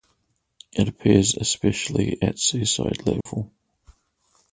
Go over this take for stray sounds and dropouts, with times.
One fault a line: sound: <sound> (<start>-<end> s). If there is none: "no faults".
sound: dropout (3.2-3.3 s)